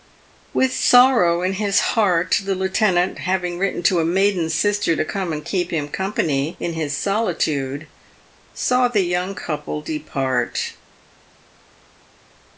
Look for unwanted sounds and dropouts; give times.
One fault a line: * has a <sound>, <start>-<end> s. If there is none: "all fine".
all fine